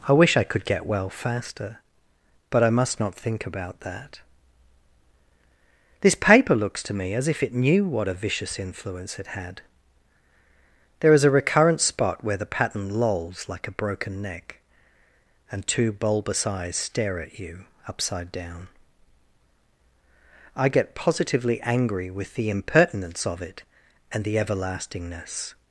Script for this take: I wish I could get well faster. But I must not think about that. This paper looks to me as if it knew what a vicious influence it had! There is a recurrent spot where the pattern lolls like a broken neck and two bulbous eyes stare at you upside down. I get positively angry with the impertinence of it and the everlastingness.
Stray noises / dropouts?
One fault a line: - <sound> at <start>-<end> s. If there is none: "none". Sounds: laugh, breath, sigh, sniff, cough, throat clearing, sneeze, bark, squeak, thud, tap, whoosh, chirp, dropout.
none